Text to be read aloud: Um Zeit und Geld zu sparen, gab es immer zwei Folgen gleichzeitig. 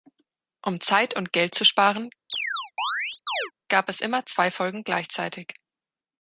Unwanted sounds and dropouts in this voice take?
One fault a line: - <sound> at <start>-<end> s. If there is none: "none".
- chirp at 2.3-3.5 s